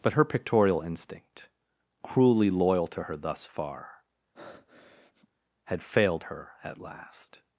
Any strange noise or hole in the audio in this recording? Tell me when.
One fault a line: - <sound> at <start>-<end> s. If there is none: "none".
- breath at 4.3-5.3 s